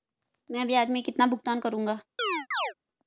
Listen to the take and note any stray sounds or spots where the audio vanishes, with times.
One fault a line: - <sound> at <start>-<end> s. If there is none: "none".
- chirp at 2.2-2.7 s